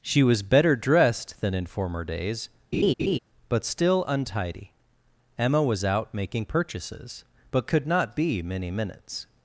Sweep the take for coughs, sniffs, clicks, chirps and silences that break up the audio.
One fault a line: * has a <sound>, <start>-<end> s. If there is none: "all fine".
* has a laugh, 2.7-3.2 s